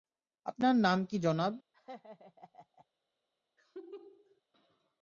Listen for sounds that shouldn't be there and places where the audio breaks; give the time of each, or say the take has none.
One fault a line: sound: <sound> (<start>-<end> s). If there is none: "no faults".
sound: laugh (1.7-2.9 s)
sound: laugh (3.6-4.4 s)